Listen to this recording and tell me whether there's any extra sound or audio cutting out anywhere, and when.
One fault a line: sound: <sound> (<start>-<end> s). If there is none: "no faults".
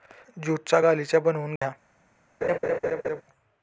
sound: dropout (1.6-1.6 s)
sound: laugh (2.4-3.2 s)